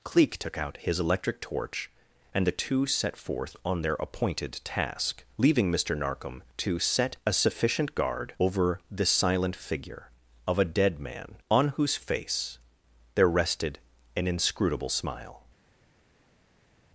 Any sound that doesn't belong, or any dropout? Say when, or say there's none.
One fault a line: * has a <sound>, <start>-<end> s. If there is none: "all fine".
all fine